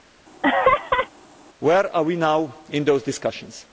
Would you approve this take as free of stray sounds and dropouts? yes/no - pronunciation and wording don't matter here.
no